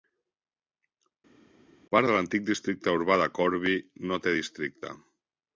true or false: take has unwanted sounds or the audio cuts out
false